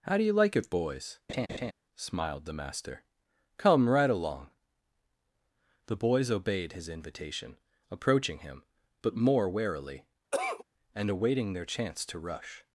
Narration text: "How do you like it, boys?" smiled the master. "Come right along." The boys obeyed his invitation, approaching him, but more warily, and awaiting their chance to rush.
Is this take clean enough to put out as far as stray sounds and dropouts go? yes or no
no